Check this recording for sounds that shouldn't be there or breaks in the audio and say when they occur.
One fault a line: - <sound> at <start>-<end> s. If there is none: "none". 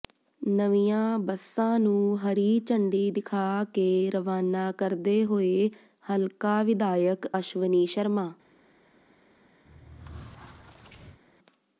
- squeak at 9.7-11.2 s